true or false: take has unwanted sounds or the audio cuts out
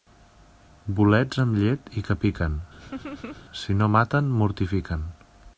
true